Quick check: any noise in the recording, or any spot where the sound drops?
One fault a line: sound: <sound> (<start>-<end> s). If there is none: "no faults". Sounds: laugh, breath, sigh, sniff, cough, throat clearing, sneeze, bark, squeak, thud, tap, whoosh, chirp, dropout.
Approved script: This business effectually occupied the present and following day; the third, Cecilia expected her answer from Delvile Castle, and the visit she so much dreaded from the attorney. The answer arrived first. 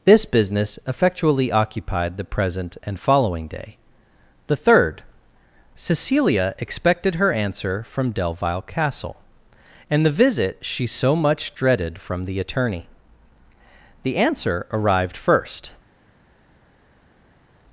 no faults